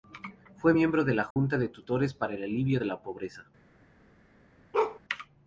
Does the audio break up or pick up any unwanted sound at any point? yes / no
yes